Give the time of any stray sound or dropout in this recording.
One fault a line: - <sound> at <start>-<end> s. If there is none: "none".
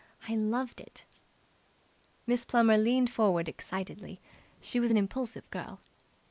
none